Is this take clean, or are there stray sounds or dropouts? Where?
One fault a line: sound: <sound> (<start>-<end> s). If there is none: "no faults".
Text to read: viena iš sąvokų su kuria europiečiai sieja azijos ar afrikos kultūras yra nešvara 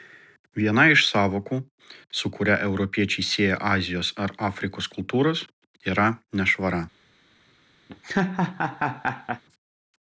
sound: laugh (7.9-9.4 s)